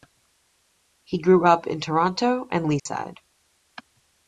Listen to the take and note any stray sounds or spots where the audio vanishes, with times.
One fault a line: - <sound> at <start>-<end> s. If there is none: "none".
- dropout at 2.8-2.9 s